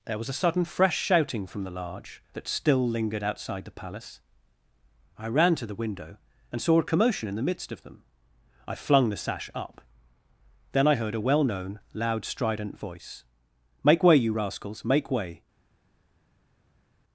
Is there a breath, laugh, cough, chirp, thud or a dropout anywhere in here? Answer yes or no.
no